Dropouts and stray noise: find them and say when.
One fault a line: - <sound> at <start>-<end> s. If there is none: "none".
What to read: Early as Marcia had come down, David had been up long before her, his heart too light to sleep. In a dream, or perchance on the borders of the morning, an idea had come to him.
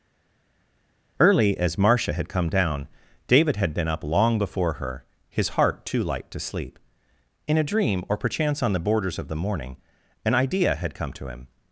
none